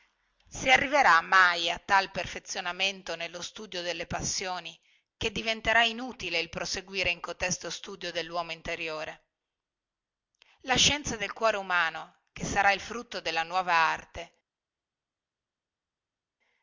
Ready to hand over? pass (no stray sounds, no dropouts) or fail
pass